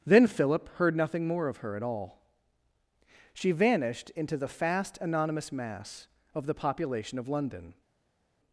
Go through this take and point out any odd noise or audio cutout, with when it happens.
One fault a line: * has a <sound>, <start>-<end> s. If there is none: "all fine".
all fine